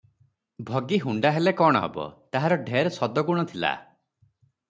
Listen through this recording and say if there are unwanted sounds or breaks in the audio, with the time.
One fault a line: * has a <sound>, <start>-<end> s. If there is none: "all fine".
all fine